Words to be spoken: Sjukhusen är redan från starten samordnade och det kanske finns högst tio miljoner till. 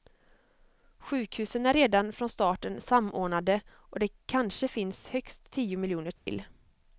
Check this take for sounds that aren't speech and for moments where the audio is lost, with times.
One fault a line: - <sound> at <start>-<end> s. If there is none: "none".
- dropout at 6.2-6.3 s